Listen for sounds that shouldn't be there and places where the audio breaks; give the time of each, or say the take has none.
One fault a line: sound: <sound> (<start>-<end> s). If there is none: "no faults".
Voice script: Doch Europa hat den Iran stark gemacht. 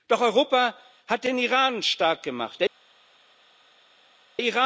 no faults